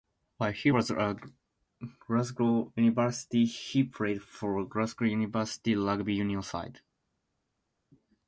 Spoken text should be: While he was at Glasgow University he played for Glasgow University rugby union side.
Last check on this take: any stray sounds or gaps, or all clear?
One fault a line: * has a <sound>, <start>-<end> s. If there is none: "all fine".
all fine